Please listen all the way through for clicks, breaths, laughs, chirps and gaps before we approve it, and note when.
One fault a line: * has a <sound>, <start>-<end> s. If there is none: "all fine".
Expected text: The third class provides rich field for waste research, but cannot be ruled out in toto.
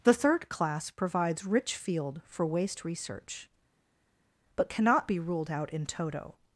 all fine